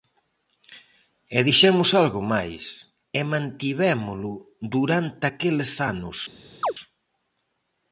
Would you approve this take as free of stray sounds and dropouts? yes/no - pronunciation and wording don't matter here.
no